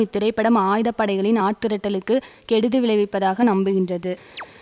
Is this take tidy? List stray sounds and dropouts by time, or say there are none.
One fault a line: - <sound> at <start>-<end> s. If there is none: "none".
- chirp at 4.4-4.5 s